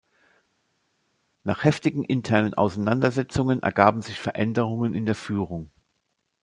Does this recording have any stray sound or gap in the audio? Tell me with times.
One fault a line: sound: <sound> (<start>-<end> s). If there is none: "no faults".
no faults